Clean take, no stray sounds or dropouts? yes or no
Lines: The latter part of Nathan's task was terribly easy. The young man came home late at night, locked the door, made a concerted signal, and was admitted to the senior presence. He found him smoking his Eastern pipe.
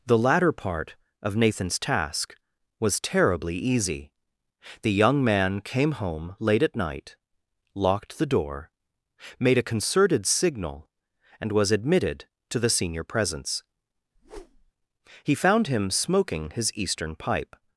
no